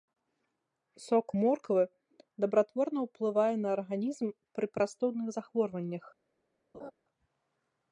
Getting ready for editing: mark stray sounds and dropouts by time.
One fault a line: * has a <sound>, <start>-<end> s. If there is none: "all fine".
* has a laugh, 6.7-6.9 s